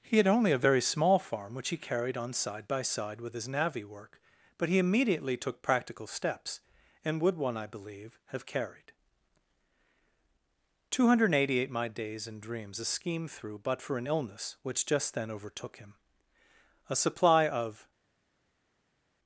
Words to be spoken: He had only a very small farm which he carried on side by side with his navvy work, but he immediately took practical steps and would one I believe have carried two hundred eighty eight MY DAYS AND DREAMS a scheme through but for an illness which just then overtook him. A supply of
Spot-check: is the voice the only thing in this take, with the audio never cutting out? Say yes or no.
yes